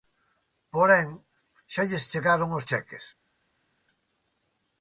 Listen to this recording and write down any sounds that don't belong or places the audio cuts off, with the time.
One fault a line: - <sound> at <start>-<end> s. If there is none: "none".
none